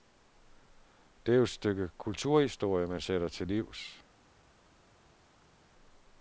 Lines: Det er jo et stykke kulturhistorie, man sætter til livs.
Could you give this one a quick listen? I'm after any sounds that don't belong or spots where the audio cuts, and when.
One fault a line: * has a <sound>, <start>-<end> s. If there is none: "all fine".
all fine